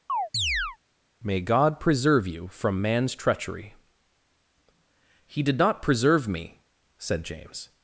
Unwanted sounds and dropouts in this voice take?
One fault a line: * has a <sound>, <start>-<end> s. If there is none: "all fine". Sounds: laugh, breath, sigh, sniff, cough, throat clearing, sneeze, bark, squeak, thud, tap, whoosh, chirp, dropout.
* has a chirp, 0.1-0.8 s